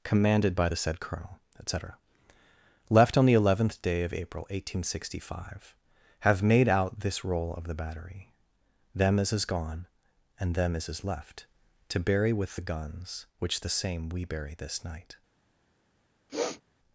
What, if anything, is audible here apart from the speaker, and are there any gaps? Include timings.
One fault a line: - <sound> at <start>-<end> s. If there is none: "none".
- sniff at 16.3-16.6 s